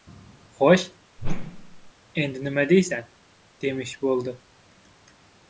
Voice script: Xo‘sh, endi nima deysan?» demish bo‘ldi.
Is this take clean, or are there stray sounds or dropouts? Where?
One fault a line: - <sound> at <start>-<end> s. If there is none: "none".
- whoosh at 1.2-1.9 s